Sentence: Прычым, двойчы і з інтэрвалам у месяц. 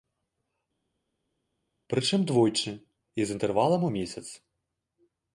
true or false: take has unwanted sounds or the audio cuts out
false